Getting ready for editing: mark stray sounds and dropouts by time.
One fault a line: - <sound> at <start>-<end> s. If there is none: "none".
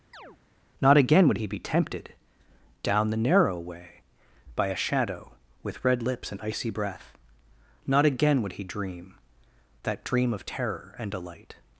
- chirp at 0.1-0.4 s